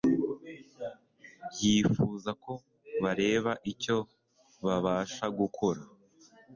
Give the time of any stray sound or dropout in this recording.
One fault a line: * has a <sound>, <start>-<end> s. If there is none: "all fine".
all fine